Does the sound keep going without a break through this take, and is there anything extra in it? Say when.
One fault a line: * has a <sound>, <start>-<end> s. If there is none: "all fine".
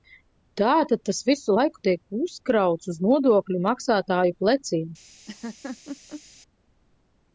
* has a laugh, 5.3-6.2 s